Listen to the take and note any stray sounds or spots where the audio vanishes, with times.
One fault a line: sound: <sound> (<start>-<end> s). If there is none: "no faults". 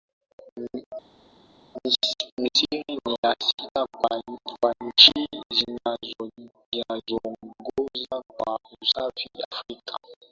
no faults